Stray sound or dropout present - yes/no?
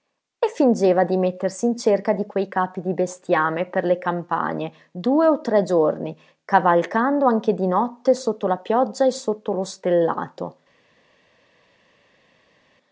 no